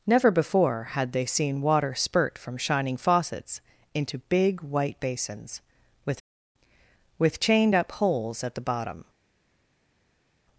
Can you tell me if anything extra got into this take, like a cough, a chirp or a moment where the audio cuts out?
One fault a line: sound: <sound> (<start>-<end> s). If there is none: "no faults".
no faults